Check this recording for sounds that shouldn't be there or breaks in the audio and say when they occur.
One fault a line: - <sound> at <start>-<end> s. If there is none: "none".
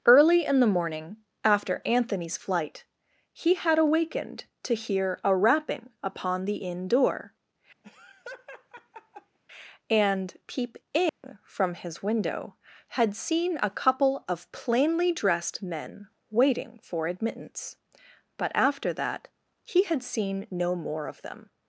- laugh at 7.8-9.4 s
- dropout at 11.1-11.2 s